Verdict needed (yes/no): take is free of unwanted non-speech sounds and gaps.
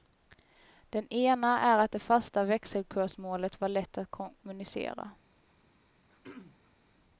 no